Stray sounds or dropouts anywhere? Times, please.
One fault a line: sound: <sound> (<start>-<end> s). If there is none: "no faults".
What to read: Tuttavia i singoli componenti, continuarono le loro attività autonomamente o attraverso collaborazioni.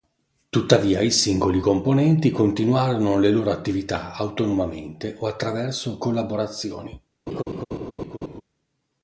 sound: laugh (7.3-8.4 s)